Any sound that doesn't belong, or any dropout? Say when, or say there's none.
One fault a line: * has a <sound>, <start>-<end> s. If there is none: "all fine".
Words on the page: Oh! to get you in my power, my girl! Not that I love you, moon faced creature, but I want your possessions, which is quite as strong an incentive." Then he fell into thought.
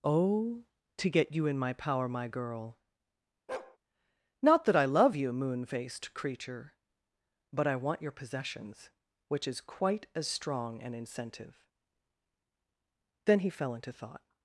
* has a bark, 3.5-3.8 s